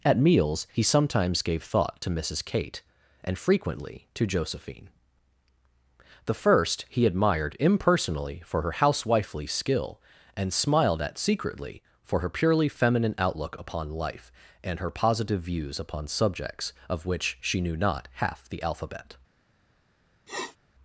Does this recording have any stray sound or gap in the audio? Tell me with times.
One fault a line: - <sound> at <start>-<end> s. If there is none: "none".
- sniff at 20.3-20.6 s